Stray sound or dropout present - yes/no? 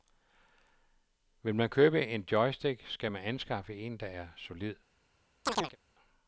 yes